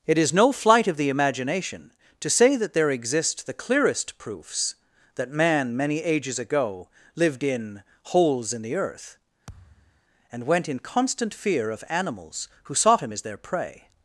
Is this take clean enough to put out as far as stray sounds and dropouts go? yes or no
no